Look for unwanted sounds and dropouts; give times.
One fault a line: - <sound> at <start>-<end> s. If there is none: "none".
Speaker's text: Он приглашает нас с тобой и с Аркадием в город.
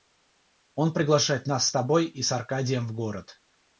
none